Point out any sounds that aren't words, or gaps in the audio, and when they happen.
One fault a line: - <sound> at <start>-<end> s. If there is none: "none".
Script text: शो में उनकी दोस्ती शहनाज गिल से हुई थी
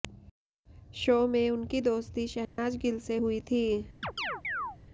- dropout at 2.4-2.6 s
- chirp at 4.0-4.8 s